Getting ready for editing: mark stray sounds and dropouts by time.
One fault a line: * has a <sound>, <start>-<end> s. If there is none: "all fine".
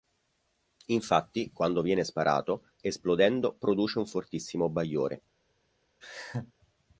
* has a laugh, 6.0-6.5 s